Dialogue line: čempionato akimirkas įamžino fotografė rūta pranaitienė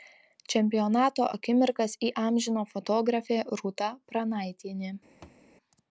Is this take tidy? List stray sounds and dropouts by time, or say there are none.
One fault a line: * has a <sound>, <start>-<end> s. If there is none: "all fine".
* has a thud, 5.2-5.4 s